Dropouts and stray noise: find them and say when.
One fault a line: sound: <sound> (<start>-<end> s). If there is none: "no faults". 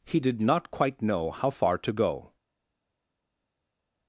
no faults